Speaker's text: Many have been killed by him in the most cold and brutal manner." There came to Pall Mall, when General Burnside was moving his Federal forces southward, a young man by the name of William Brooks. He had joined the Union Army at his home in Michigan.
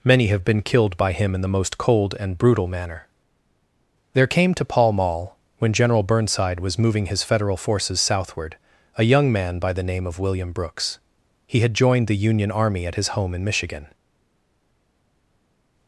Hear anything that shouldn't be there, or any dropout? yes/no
no